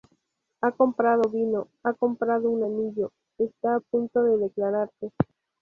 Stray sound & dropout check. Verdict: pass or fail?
pass